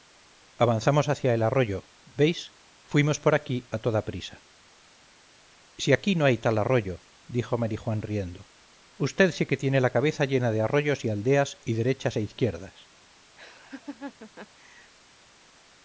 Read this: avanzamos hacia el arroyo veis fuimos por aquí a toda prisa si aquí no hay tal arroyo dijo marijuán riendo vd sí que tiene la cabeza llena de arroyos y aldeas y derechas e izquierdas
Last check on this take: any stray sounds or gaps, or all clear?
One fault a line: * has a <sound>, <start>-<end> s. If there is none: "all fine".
* has a laugh, 13.4-14.9 s